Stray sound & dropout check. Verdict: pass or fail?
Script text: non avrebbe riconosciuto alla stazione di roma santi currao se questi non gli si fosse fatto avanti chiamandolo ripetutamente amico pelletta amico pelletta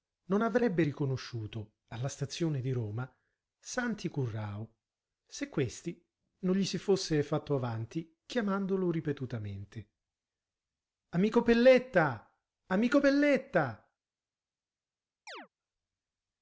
fail